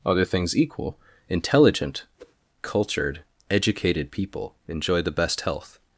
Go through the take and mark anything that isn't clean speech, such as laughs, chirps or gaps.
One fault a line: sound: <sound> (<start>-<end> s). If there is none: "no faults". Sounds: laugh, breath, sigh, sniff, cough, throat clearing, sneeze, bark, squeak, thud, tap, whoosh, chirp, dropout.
sound: whoosh (2.2-2.4 s)